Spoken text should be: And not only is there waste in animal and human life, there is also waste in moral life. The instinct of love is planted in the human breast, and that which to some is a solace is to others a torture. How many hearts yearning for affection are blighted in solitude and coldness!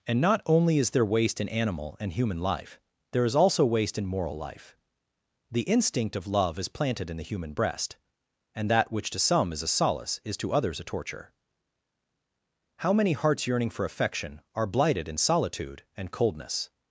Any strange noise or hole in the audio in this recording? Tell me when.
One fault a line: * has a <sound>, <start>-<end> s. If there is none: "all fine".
all fine